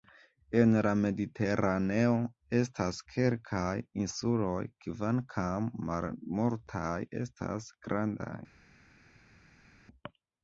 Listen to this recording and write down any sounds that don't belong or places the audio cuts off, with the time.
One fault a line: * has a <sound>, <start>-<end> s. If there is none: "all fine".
all fine